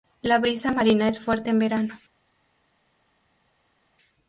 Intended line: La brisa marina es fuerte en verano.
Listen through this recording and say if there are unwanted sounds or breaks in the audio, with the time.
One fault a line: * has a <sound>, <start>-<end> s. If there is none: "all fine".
all fine